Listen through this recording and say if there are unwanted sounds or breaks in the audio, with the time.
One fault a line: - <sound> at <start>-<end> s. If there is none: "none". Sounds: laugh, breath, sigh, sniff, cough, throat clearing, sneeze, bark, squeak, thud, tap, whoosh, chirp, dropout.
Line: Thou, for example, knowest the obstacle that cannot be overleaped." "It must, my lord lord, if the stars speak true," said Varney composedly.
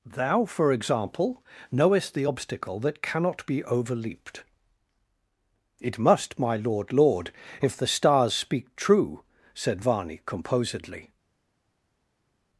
none